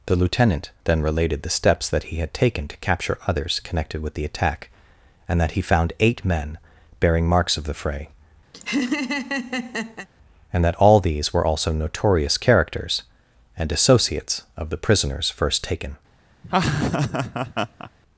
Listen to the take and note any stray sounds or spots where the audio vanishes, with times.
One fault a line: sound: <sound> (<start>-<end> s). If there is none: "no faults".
sound: laugh (8.5-10.1 s)
sound: laugh (16.4-17.9 s)